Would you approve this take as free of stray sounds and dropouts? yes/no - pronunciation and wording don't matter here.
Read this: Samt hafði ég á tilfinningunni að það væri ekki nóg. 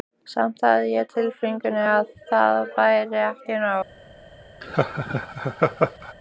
no